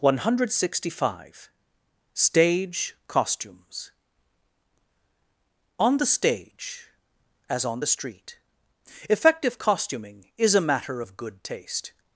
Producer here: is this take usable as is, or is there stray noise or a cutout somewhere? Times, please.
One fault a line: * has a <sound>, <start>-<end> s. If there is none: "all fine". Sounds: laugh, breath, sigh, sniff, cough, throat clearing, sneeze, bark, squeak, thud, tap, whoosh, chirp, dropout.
all fine